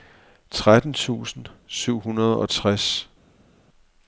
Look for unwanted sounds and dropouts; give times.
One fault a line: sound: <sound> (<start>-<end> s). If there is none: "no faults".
no faults